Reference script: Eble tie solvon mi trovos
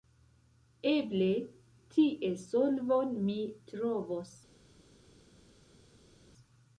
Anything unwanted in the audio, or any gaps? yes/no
no